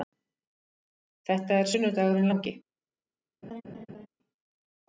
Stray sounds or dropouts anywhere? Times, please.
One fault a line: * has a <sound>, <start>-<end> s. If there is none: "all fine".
* has a laugh, 3.4-4.1 s